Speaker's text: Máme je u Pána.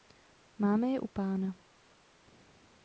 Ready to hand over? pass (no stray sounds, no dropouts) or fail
pass